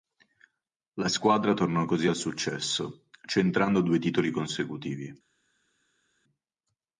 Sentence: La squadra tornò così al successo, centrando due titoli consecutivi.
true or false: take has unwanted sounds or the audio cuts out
false